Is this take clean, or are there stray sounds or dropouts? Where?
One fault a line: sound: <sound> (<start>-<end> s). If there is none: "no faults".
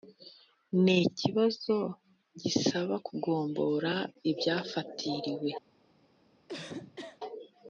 sound: cough (6.5-7.2 s)